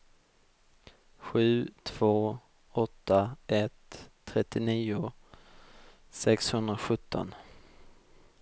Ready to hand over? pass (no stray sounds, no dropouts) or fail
pass